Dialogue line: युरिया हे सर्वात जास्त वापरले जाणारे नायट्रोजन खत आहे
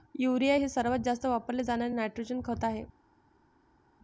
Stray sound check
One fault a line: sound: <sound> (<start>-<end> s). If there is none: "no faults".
no faults